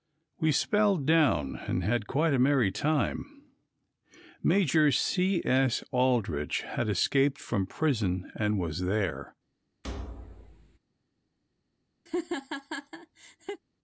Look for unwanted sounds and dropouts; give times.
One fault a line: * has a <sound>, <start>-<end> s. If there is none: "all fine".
* has a thud, 9.8-10.8 s
* has a laugh, 12.1-13.6 s